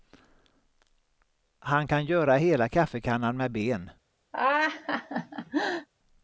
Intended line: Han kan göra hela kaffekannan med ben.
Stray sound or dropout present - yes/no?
yes